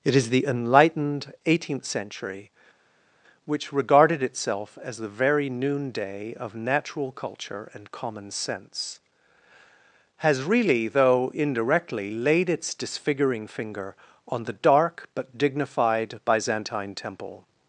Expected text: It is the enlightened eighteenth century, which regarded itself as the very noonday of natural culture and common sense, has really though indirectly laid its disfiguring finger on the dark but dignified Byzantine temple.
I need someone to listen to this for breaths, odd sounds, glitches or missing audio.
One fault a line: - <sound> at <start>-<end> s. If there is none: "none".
none